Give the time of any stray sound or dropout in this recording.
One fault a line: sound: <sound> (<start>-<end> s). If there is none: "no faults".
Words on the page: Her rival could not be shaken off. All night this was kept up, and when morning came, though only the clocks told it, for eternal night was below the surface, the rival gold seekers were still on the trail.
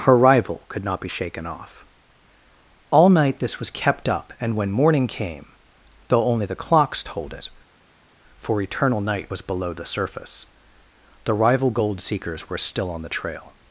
no faults